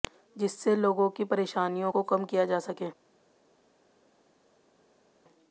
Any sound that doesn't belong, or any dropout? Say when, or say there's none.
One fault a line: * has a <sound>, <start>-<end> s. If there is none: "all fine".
all fine